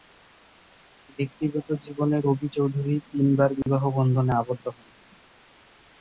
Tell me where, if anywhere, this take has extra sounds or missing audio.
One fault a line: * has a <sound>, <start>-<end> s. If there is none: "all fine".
* has a dropout, 3.6-3.7 s